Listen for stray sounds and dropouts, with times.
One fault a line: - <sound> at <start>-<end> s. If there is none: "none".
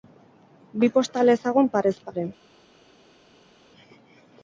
none